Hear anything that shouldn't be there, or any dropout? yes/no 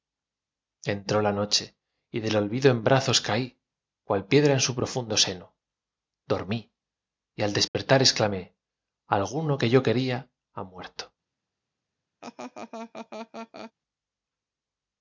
yes